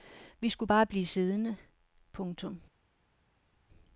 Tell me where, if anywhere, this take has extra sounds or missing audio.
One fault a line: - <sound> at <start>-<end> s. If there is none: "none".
none